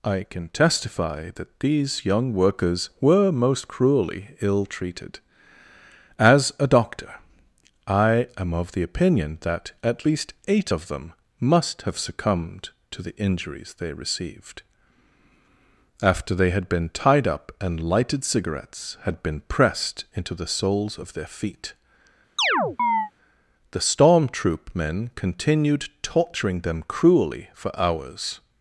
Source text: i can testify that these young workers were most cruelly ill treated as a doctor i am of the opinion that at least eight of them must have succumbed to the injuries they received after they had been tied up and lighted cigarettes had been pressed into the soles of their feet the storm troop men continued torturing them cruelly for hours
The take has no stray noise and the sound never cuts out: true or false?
false